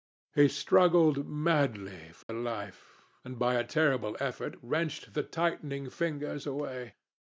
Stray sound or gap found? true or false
true